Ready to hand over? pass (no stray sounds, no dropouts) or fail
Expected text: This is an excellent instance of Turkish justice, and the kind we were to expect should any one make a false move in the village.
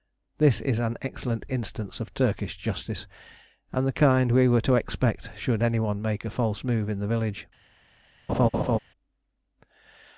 fail